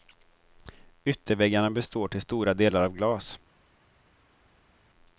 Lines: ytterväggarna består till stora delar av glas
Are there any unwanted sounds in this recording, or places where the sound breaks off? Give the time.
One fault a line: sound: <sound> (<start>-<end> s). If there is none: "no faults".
no faults